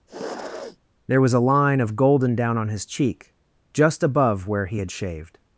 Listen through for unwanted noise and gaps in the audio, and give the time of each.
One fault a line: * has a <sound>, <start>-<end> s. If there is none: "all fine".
* has a sniff, 0.1-0.8 s